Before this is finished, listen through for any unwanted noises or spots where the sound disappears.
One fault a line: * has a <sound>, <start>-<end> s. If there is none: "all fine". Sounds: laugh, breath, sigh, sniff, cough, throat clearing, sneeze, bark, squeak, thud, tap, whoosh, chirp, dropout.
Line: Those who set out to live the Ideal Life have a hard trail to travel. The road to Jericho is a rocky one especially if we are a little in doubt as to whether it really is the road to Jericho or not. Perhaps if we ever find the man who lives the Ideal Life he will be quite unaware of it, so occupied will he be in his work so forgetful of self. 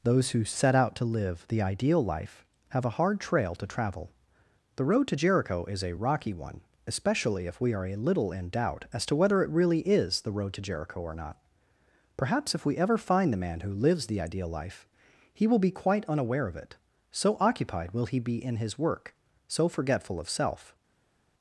all fine